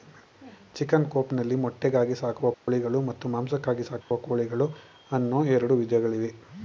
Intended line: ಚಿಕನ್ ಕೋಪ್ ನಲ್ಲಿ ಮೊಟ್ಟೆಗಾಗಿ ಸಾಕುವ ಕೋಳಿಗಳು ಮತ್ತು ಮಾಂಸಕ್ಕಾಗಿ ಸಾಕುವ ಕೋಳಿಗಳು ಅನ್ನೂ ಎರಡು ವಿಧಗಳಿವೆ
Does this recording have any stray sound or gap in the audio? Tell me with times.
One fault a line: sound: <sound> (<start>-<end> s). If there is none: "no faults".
sound: dropout (2.5-2.7 s)
sound: dropout (4.0-4.1 s)